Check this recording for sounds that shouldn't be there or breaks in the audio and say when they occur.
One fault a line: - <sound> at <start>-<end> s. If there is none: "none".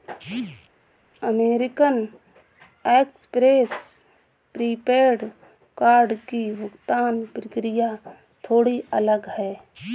none